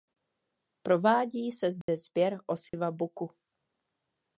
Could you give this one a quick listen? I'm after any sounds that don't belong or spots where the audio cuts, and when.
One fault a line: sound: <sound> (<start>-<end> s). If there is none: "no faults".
sound: dropout (1.8-1.9 s)
sound: dropout (2.7-2.7 s)